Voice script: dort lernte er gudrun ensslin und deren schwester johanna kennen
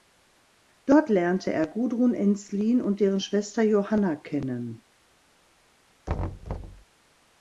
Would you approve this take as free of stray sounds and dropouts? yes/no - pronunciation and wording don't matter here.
no